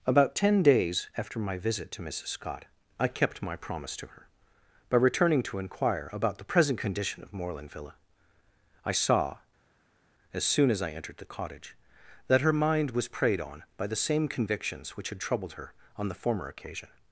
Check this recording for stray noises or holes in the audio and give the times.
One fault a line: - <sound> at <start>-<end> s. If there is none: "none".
none